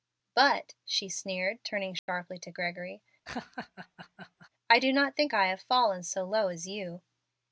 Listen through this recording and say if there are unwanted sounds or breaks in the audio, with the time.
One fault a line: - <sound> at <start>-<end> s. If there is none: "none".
- dropout at 2.0-2.1 s
- laugh at 3.3-4.5 s